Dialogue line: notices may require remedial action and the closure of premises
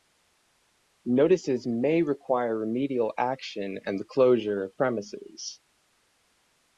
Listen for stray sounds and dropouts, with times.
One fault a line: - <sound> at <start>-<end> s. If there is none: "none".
none